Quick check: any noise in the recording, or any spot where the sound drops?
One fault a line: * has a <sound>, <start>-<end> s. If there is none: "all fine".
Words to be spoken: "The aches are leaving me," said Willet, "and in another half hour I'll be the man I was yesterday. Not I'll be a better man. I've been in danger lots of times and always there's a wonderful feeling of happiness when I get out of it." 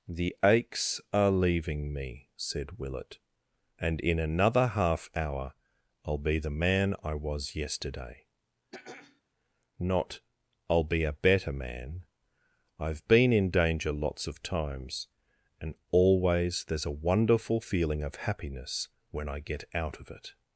* has a throat clearing, 8.7-9.2 s